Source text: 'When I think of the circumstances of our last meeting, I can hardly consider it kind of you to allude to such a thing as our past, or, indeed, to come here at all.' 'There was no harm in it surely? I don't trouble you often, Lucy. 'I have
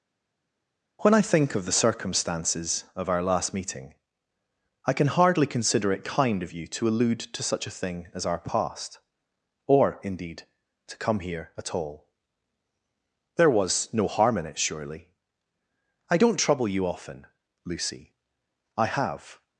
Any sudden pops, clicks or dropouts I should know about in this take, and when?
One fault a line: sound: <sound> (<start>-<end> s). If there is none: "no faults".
no faults